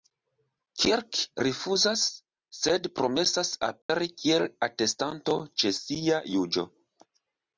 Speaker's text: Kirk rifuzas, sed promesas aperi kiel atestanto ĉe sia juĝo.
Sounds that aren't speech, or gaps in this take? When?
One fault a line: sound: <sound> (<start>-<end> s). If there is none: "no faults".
sound: dropout (3.8-3.9 s)